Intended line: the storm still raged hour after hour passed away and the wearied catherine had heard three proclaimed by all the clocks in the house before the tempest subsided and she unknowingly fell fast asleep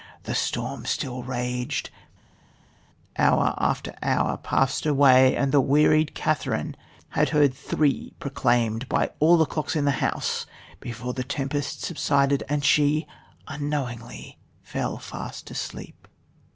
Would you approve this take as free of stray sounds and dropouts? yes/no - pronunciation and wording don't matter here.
yes